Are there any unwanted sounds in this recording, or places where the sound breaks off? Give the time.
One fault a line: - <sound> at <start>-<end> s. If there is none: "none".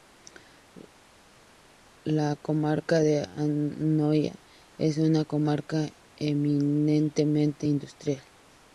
none